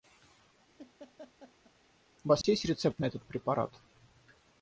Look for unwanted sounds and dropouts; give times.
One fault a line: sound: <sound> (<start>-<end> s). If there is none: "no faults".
sound: laugh (0.8-1.7 s)
sound: dropout (2.4-2.4 s)